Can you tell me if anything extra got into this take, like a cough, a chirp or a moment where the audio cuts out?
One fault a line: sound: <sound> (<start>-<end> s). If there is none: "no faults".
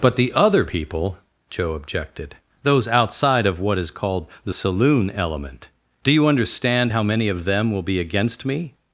no faults